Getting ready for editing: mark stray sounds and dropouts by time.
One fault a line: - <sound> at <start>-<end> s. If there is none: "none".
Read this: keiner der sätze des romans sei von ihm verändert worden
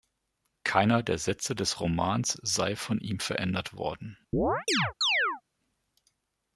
- chirp at 4.3-5.4 s